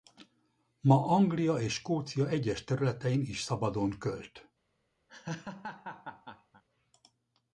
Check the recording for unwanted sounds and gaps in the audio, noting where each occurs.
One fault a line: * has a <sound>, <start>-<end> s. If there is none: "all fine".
* has a laugh, 5.1-6.6 s